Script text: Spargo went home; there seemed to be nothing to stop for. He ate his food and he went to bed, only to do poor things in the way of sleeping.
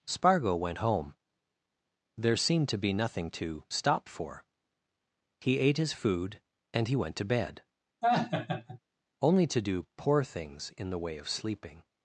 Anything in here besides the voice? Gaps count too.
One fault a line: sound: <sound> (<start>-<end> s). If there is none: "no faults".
sound: laugh (8.0-8.8 s)